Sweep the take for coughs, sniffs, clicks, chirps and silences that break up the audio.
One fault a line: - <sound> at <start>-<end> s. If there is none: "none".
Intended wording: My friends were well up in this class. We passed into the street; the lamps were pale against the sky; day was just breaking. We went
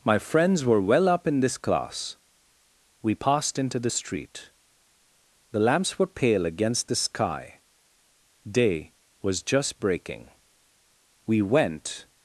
none